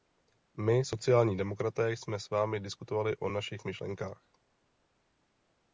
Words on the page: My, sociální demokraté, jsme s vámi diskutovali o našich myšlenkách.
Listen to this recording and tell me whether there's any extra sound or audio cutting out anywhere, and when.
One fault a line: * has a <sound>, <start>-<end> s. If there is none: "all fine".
all fine